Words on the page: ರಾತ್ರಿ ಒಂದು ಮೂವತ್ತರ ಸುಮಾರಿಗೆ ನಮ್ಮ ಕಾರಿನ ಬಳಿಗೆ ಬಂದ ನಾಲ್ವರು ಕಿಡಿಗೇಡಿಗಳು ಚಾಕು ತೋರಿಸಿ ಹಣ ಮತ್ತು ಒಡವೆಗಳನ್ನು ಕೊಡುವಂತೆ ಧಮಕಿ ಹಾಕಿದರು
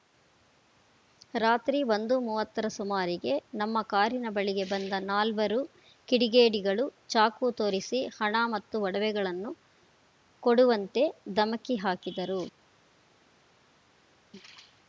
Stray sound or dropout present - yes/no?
no